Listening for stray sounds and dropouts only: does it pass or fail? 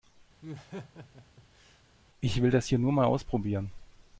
fail